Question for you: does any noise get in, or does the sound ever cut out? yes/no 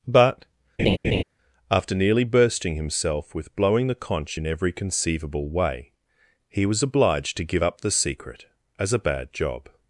yes